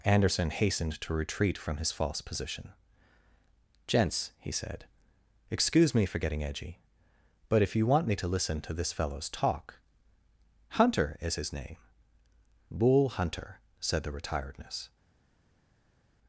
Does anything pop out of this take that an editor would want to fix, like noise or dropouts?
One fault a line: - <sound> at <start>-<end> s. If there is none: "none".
none